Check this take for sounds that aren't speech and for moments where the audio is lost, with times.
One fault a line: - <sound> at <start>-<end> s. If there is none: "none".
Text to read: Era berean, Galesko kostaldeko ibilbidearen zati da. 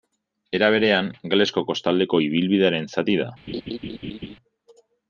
- laugh at 3.5-4.4 s